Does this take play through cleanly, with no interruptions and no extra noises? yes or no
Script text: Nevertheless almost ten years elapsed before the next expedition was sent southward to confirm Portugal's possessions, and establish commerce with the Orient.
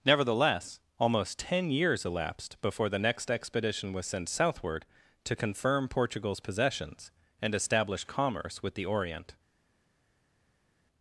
yes